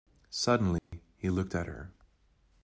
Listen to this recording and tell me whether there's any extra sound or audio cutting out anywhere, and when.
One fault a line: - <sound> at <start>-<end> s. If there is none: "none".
- dropout at 0.8-0.9 s